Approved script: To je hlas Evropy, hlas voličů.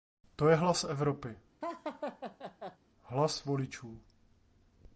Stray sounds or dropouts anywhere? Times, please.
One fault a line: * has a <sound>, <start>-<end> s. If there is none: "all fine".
* has a laugh, 1.6-2.8 s